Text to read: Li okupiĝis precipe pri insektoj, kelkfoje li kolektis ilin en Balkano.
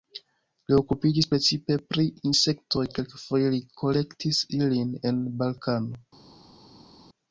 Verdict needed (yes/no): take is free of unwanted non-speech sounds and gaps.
yes